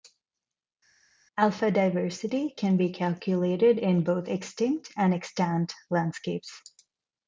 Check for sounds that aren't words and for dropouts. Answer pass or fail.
pass